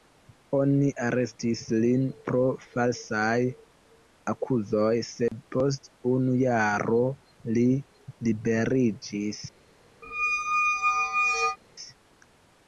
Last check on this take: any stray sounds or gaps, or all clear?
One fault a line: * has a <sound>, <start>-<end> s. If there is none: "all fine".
* has a dropout, 5.3-5.3 s
* has a squeak, 10.0-11.6 s